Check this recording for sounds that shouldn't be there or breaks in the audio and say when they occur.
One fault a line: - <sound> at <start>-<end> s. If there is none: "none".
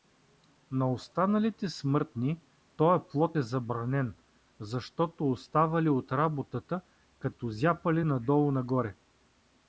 none